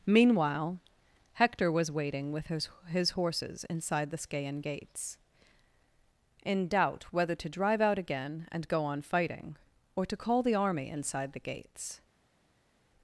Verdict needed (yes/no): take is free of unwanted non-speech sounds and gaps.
yes